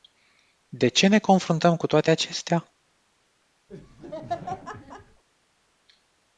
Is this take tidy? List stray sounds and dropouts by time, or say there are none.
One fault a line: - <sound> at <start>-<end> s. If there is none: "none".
- laugh at 3.7-5.2 s